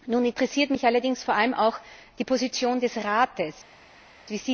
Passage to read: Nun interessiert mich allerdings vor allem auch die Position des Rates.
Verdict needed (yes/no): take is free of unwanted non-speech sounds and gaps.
yes